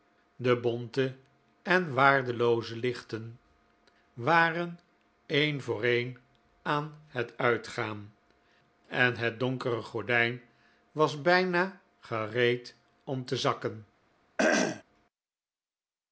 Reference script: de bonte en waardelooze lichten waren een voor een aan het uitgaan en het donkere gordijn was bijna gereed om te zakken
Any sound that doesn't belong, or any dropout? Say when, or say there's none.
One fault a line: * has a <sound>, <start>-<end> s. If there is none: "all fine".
* has a throat clearing, 14.4-14.8 s